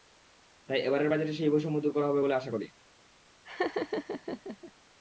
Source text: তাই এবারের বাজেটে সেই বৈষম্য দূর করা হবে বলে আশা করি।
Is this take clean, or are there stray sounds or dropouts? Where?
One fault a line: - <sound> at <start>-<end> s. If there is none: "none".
- laugh at 3.4-4.7 s